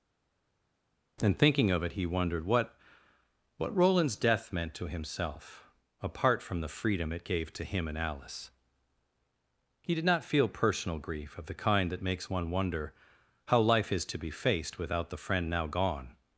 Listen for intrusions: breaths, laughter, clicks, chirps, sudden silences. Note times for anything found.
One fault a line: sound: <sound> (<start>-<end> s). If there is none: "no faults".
no faults